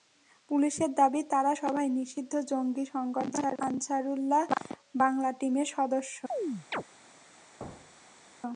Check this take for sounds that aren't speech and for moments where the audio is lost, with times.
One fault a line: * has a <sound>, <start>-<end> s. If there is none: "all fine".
* has a chirp, 6.3-6.8 s
* has a thud, 7.6-8.3 s